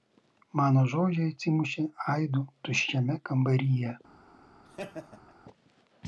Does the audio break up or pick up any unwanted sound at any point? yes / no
yes